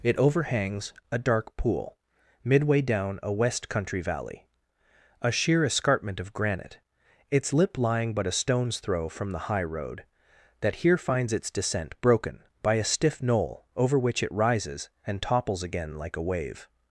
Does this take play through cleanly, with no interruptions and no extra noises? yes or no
yes